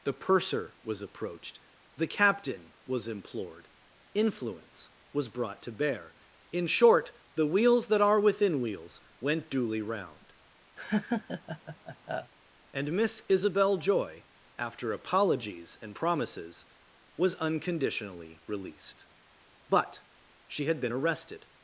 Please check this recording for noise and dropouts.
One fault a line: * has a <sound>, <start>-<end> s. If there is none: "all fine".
* has a laugh, 10.8-12.3 s